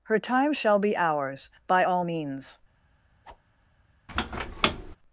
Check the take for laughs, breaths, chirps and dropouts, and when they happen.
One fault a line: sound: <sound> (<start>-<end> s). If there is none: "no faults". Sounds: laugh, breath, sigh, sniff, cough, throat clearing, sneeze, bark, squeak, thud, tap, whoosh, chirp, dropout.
sound: whoosh (3.2-3.4 s)
sound: squeak (4.1-5.0 s)